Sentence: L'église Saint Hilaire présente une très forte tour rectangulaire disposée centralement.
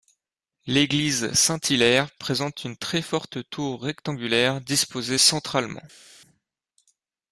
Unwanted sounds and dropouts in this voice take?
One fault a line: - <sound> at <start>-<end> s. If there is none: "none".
none